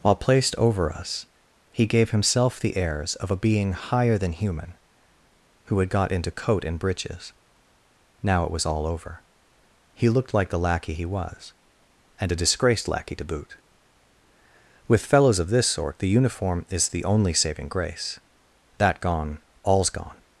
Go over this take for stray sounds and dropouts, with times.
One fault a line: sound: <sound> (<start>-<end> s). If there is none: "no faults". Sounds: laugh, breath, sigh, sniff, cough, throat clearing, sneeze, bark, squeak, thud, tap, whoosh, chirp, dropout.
no faults